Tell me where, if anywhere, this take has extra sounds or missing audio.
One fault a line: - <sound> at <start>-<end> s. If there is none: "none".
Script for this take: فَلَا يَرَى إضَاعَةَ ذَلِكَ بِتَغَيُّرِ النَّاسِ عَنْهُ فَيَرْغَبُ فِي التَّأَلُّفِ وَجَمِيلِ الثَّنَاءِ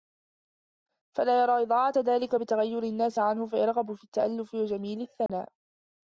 - dropout at 5.3-5.3 s